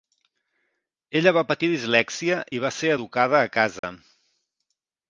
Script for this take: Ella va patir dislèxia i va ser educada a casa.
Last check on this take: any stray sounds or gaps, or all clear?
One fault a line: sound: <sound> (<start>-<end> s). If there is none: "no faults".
sound: dropout (3.8-3.8 s)